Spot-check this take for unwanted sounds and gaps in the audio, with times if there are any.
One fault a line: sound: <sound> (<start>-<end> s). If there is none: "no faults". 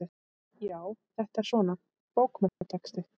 sound: dropout (2.5-2.6 s)